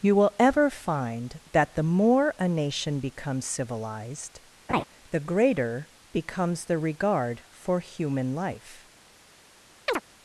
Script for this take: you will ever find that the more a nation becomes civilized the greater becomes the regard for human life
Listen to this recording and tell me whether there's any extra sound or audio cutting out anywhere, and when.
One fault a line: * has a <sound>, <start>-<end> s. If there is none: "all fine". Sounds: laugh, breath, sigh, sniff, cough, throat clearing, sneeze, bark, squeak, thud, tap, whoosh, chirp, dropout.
* has a laugh, 4.7-4.8 s
* has a chirp, 9.9-10.0 s